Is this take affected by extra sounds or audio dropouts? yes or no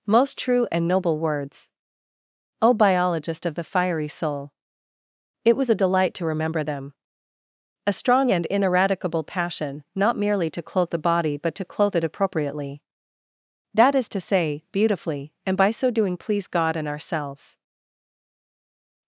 no